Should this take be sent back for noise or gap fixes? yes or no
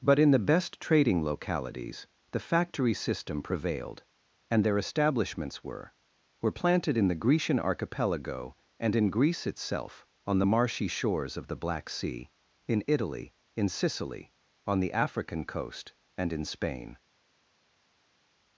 no